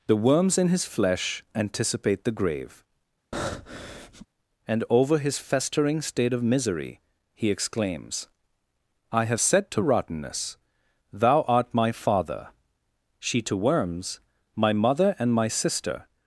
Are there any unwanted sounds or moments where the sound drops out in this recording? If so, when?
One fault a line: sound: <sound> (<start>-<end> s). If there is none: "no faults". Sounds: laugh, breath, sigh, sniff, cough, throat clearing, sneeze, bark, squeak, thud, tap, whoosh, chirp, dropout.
sound: breath (3.3-4.3 s)